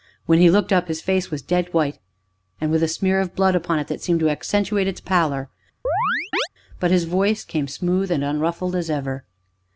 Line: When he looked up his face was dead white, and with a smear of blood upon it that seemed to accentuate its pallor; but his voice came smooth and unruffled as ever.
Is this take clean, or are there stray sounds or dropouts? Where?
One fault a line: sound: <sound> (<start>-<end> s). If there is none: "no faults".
sound: chirp (5.8-6.5 s)